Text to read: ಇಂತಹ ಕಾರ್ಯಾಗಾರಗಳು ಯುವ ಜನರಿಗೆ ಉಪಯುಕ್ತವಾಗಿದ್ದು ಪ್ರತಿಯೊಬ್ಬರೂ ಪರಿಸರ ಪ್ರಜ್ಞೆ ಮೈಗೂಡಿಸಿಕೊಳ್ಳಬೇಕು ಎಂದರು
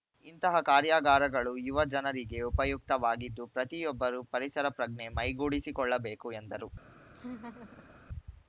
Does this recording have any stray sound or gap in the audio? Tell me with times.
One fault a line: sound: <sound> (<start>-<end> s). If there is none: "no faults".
sound: laugh (7.1-8.0 s)